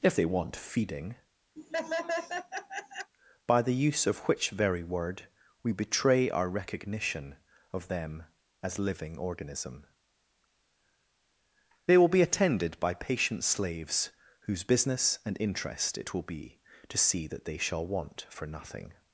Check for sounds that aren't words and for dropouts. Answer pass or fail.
fail